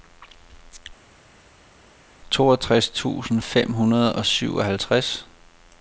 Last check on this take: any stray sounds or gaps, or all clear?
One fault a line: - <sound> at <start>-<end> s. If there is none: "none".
none